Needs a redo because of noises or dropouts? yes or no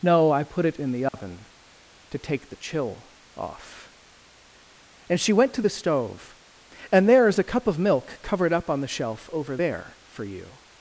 yes